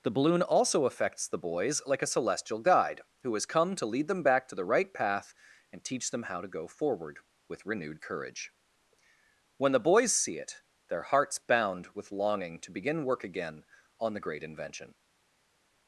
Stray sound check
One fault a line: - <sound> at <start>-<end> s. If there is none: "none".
none